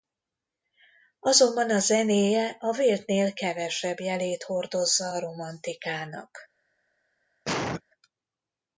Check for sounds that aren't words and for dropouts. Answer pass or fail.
fail